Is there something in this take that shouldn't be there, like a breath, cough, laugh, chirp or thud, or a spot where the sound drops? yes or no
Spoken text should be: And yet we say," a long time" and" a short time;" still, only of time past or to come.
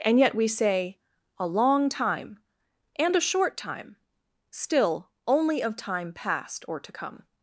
no